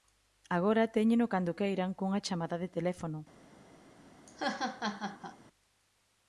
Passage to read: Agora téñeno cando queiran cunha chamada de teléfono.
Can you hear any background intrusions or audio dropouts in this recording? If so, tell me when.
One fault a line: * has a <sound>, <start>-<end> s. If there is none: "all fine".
* has a laugh, 4.3-5.4 s